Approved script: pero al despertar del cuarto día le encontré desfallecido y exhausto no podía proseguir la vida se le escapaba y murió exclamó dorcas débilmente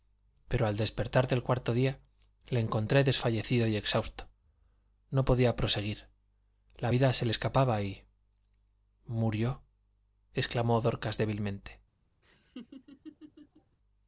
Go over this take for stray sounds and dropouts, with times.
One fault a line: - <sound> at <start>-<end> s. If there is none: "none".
- laugh at 12.2-13.8 s